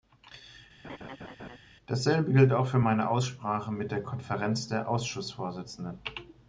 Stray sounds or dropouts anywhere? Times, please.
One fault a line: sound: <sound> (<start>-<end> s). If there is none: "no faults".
sound: laugh (0.8-1.6 s)